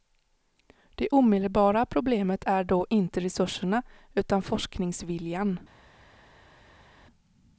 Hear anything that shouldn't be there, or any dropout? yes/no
no